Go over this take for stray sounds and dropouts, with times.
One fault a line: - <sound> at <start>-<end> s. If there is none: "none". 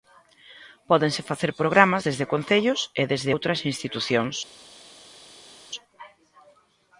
none